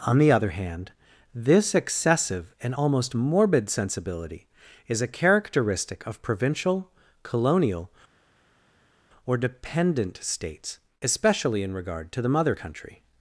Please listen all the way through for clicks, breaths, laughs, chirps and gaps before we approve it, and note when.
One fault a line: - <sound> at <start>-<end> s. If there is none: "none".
none